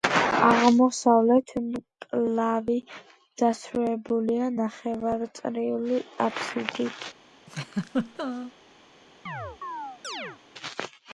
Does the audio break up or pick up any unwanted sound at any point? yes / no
yes